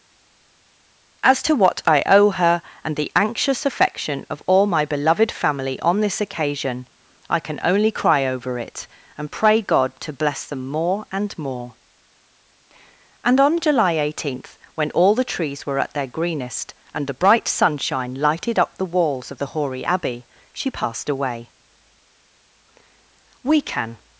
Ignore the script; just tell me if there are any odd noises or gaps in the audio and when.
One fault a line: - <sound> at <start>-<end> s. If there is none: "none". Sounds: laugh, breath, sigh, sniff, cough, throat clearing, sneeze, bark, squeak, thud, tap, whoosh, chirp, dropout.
none